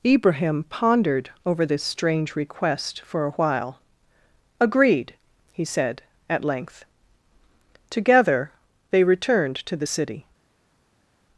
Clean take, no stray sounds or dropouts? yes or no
yes